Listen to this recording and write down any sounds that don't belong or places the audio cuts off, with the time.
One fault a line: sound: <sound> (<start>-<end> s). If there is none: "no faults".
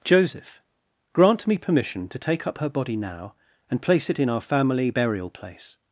no faults